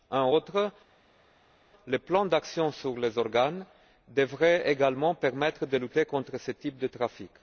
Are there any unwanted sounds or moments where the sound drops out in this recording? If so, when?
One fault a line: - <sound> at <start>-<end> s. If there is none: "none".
none